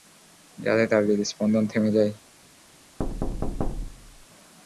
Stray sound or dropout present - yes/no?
yes